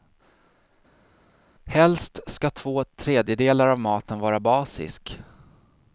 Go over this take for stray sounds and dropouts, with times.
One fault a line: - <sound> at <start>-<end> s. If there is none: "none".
none